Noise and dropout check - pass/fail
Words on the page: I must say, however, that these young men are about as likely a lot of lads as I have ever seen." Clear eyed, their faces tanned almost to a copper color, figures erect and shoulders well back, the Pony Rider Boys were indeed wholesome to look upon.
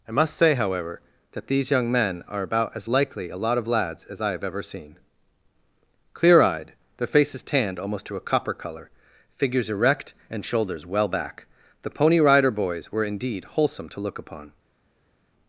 pass